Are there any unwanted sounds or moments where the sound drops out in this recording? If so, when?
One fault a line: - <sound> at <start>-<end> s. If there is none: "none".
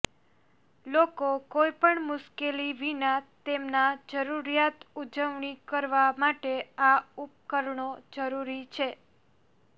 none